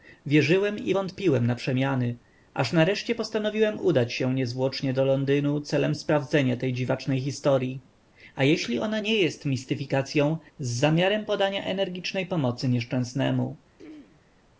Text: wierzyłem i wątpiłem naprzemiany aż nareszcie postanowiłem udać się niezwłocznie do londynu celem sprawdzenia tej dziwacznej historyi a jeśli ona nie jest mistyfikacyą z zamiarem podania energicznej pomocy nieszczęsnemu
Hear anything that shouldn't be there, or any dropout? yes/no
yes